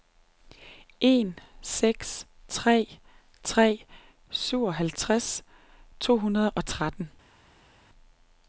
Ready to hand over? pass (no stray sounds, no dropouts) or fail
pass